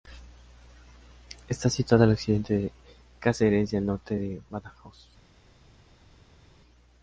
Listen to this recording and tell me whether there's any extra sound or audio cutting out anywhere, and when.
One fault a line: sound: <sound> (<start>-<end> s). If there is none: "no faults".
no faults